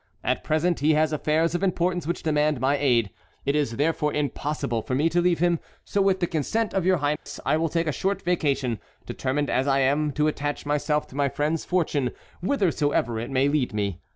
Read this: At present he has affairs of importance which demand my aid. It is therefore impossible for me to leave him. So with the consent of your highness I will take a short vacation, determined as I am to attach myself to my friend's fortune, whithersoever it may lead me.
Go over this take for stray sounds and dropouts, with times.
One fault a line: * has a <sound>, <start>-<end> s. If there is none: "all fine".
* has a dropout, 7.2-7.3 s